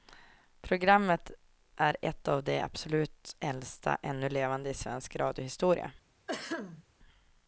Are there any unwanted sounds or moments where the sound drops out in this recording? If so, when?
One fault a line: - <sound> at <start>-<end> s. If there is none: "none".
- throat clearing at 6.3-6.8 s